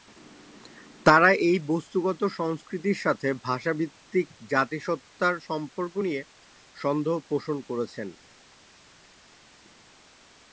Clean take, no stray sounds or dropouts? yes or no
yes